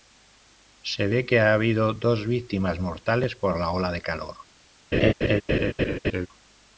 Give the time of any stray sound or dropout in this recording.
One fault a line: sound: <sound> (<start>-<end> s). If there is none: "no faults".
sound: laugh (4.9-6.3 s)